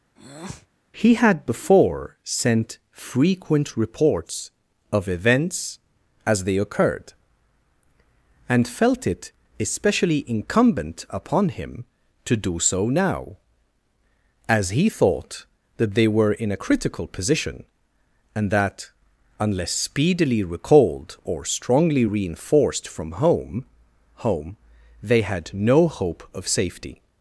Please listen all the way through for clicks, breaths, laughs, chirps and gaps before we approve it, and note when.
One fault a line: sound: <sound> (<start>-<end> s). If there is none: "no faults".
sound: breath (0.2-0.7 s)